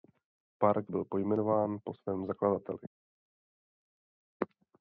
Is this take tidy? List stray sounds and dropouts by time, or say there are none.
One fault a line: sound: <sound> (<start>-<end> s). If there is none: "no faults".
no faults